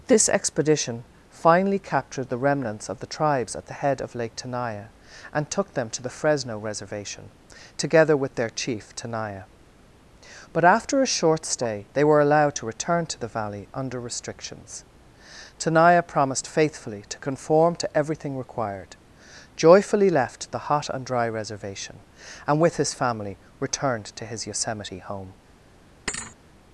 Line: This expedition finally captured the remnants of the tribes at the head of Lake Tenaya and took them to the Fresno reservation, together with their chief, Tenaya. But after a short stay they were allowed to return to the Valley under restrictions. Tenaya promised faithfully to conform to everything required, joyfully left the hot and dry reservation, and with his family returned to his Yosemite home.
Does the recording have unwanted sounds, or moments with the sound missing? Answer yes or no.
yes